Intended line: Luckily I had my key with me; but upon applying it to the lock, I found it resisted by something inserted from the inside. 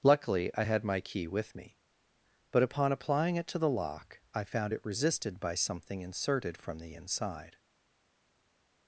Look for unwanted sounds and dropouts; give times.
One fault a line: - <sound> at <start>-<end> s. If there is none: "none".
none